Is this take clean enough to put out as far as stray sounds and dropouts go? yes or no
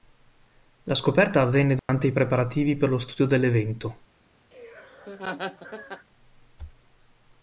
no